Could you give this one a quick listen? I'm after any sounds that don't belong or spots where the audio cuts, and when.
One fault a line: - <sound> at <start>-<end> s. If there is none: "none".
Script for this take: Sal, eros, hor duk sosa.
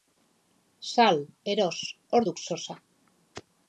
none